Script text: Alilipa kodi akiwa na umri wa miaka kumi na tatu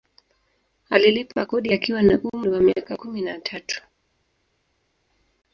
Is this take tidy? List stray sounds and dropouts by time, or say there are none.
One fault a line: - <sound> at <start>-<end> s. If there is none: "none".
none